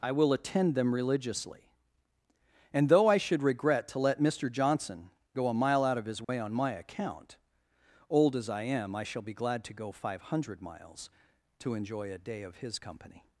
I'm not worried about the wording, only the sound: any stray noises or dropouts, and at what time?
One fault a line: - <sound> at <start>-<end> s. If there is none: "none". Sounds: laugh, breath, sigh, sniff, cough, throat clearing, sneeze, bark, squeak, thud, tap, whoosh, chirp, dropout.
- dropout at 6.2-6.3 s